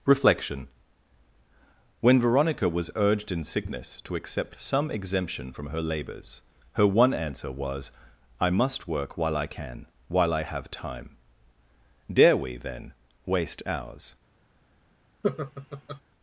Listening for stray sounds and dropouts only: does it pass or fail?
fail